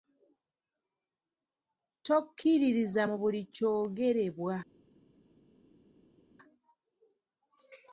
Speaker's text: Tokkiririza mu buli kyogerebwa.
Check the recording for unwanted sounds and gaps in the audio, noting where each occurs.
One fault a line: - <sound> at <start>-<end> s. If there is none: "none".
none